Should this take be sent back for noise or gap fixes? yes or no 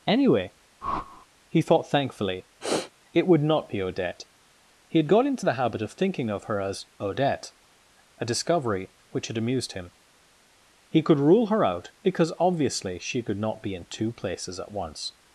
yes